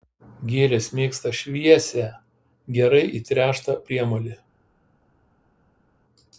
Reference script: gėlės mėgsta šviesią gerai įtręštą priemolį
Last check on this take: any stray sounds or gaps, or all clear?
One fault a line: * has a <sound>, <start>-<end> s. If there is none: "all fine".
all fine